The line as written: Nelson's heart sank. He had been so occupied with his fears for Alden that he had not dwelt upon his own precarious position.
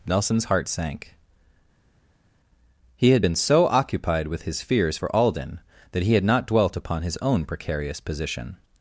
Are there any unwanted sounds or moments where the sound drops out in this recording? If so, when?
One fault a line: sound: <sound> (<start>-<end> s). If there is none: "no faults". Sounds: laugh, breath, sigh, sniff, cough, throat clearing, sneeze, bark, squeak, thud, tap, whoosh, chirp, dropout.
no faults